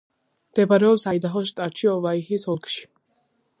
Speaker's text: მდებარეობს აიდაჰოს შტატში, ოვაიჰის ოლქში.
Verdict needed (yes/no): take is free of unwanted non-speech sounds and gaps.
yes